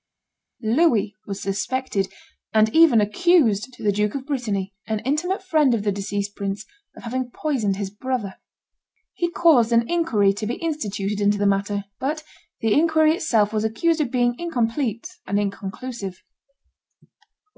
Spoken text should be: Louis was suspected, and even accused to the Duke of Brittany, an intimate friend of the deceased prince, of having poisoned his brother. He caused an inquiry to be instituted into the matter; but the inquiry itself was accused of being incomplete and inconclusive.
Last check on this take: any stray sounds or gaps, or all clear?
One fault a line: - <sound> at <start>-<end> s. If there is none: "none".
none